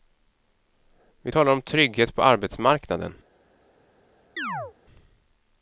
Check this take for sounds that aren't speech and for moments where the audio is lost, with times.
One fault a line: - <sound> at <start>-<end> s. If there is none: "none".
- chirp at 4.4-4.7 s